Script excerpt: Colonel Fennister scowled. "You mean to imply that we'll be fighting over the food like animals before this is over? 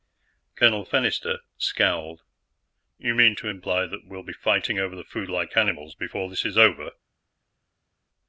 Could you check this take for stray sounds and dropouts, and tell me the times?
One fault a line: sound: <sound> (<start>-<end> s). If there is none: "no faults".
no faults